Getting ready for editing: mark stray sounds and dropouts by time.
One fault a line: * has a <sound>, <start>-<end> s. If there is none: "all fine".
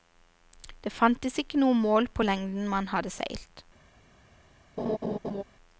* has a laugh, 4.8-5.4 s